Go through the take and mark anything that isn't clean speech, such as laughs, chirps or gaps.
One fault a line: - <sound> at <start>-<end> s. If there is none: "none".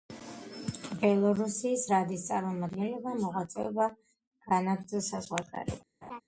- laugh at 6.0-6.2 s